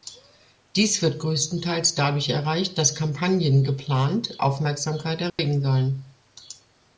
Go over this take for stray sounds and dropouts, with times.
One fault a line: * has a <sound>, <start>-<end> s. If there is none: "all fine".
* has a dropout, 5.3-5.4 s